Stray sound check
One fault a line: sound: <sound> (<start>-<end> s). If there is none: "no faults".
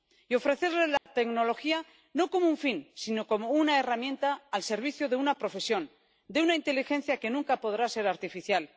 sound: dropout (1.0-1.1 s)